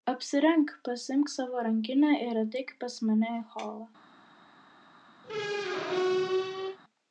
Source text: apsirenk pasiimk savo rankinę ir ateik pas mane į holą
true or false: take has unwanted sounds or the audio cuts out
true